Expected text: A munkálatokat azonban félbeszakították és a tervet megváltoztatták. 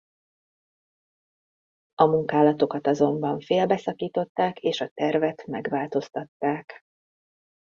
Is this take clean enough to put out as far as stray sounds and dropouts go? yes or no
yes